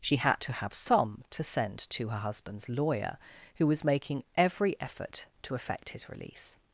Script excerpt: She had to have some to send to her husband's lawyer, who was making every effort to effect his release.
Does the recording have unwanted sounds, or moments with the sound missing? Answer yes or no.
no